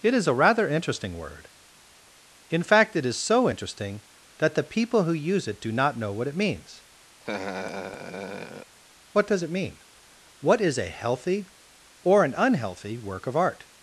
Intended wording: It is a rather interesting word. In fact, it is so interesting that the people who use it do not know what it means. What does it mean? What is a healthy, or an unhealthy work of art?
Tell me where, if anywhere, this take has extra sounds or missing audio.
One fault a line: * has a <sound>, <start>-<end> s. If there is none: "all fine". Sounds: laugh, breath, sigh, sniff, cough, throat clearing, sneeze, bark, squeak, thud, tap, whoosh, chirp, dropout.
* has a laugh, 7.2-8.7 s